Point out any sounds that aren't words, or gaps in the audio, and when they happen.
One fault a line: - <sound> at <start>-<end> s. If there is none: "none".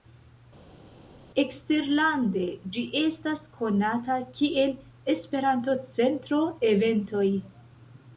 none